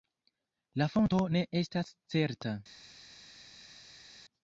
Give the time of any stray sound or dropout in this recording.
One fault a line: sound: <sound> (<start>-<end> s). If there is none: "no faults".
no faults